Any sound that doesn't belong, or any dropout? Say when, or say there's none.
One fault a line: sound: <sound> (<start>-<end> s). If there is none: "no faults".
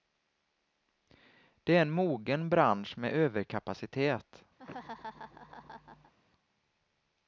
sound: laugh (4.6-6.1 s)